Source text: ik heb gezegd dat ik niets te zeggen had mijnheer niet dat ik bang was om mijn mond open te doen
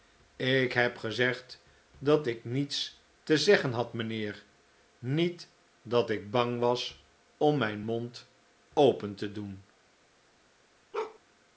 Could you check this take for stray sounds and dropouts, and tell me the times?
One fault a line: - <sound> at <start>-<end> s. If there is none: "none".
- bark at 10.9-11.2 s